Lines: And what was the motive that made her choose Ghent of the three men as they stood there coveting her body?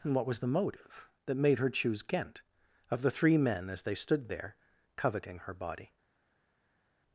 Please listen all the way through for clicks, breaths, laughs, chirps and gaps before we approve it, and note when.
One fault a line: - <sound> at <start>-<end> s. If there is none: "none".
none